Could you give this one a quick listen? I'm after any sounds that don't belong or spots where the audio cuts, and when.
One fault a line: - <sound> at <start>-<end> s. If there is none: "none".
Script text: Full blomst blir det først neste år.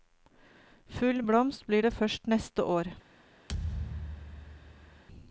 - thud at 3.5-5.0 s